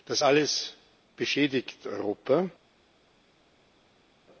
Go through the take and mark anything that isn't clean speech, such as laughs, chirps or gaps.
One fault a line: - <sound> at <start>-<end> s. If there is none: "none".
none